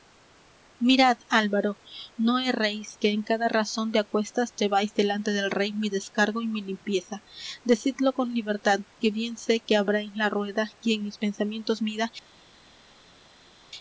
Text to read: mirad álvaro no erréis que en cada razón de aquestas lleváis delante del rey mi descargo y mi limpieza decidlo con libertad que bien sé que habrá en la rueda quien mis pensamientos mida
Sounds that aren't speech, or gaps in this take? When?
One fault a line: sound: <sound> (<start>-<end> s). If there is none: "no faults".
no faults